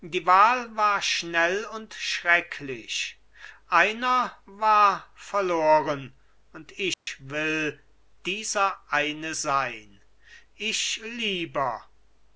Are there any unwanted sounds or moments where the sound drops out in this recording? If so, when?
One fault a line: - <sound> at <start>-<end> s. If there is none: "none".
- dropout at 6.9-7.1 s